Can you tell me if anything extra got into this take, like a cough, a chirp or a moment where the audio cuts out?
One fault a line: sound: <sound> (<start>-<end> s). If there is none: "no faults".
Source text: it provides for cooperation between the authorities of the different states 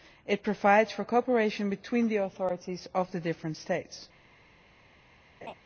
sound: laugh (5.4-5.5 s)